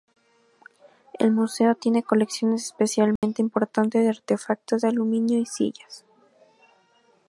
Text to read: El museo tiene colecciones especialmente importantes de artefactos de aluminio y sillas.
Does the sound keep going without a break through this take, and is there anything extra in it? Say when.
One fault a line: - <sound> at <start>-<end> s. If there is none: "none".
- dropout at 3.2-3.2 s